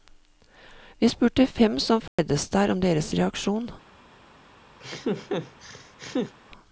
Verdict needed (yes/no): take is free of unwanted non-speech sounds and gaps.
no